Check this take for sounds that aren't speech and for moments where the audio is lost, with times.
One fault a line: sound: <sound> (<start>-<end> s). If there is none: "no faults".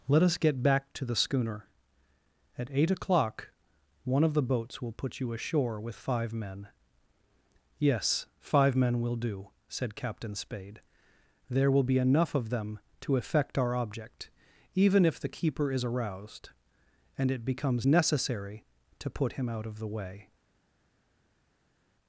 no faults